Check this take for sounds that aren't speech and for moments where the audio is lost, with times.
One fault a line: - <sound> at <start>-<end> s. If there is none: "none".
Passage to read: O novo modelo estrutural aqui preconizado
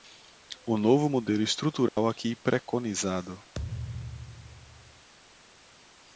- dropout at 1.9-2.0 s
- thud at 3.5-5.1 s